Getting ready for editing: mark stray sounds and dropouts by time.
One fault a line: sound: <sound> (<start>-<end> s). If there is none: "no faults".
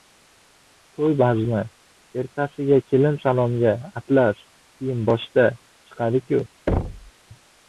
sound: thud (6.7-7.1 s)